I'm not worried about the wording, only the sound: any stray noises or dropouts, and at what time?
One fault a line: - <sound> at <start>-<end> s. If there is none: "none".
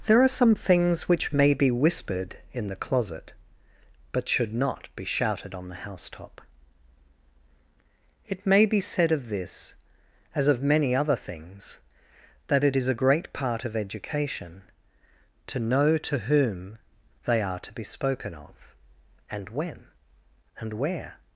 none